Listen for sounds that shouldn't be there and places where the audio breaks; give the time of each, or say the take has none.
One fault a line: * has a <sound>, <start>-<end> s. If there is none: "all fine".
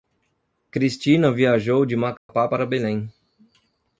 * has a dropout, 2.2-2.3 s